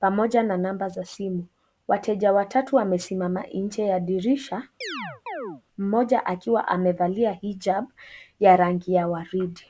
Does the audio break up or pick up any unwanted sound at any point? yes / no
yes